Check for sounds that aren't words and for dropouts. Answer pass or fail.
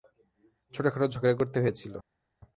pass